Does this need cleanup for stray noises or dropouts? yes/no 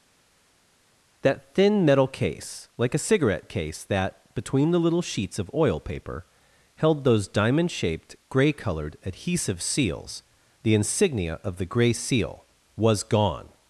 no